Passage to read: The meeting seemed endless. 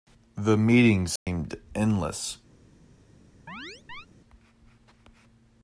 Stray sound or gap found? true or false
true